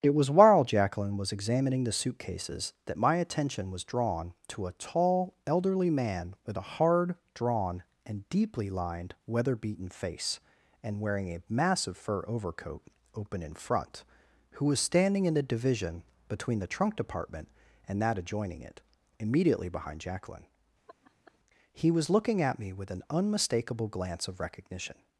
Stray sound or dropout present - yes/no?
yes